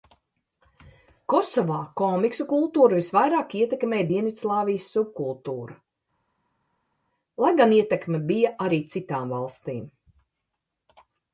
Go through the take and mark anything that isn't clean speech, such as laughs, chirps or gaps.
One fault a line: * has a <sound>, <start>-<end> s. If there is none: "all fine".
all fine